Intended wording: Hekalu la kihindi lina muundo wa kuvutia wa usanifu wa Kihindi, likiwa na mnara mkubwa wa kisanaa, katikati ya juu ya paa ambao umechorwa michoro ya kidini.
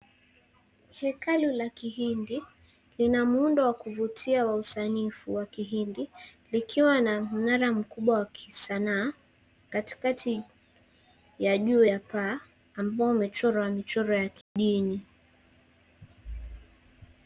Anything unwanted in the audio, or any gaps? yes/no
yes